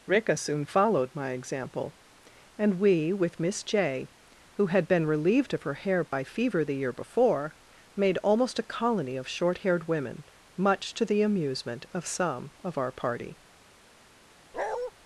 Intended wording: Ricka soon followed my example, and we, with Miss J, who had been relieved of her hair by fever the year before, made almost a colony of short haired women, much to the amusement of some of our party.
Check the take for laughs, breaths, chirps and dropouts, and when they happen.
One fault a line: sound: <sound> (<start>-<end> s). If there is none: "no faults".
sound: dropout (6.1-6.1 s)
sound: bark (14.5-14.9 s)